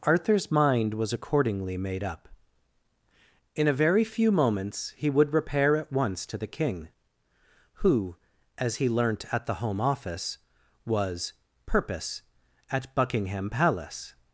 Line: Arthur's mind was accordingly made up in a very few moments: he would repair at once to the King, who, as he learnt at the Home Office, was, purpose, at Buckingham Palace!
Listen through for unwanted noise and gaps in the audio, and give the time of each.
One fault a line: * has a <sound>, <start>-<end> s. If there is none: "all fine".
all fine